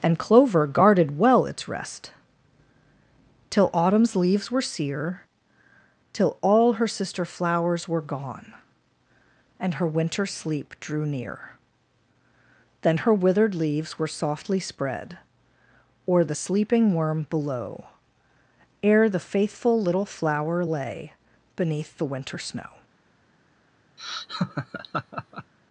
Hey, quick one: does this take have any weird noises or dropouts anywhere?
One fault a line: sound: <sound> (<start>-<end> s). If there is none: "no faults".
sound: laugh (24.0-25.5 s)